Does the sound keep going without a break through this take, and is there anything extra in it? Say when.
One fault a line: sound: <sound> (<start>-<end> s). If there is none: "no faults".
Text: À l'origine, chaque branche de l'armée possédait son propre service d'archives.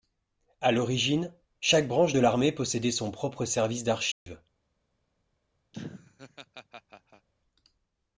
sound: dropout (4.1-4.3 s)
sound: laugh (5.7-7.3 s)